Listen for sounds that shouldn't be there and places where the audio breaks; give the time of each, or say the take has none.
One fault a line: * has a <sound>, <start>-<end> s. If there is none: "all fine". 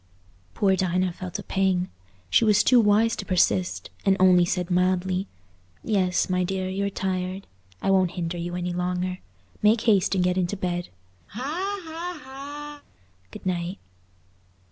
* has a laugh, 11.3-12.8 s